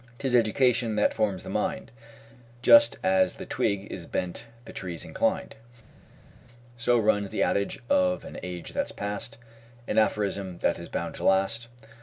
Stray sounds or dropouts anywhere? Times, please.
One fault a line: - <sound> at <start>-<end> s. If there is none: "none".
none